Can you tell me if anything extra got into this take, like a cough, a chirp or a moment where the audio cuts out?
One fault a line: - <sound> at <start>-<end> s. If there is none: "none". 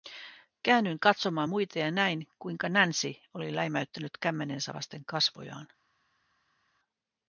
none